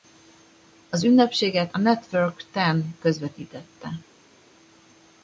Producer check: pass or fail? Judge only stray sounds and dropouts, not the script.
pass